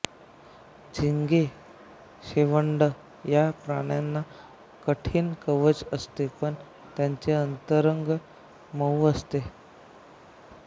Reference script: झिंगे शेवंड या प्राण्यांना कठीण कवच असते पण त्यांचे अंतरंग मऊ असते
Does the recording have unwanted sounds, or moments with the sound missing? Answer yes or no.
no